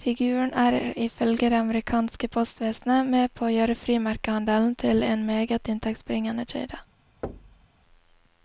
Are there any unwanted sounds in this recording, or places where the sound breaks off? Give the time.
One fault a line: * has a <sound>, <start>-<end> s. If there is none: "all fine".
* has a thud, 7.2-7.7 s